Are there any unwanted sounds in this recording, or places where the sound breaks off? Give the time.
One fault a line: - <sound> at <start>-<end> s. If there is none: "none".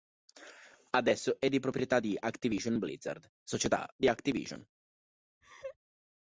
- laugh at 5.4-5.8 s